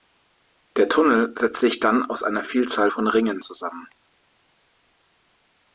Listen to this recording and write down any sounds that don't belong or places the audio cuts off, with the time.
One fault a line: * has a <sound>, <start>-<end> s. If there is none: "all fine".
all fine